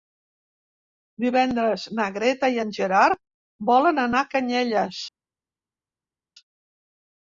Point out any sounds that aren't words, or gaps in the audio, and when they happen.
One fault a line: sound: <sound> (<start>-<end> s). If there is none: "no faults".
no faults